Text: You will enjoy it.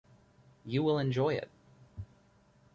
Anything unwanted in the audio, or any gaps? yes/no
no